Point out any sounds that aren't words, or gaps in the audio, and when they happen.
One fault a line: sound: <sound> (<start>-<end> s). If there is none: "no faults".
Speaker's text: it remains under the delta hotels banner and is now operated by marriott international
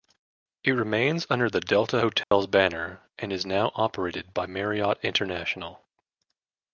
sound: dropout (2.2-2.3 s)